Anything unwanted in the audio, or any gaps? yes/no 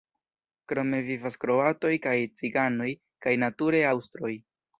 no